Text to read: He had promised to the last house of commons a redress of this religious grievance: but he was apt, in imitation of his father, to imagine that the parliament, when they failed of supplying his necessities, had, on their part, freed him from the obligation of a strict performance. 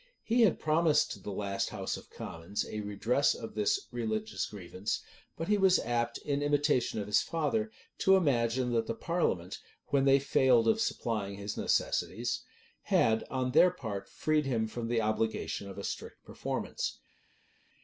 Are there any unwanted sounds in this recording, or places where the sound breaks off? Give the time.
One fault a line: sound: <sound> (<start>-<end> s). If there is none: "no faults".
no faults